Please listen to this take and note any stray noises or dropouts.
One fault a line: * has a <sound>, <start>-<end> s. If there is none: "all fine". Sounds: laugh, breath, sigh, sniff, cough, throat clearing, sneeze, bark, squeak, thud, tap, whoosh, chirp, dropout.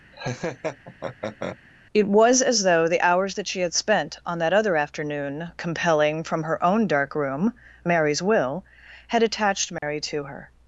* has a laugh, 0.1-1.6 s
* has a dropout, 9.8-9.8 s